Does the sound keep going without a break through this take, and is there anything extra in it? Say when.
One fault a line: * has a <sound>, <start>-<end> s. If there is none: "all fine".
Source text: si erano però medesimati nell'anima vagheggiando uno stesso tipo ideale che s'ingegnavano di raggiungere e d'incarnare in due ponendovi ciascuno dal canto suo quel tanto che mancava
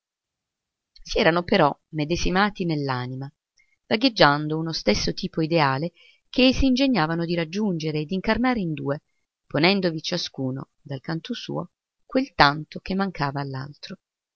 all fine